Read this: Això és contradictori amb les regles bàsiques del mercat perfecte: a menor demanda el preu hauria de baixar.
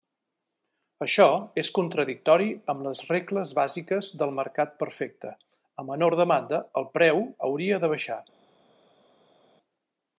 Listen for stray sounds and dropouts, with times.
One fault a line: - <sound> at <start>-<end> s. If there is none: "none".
none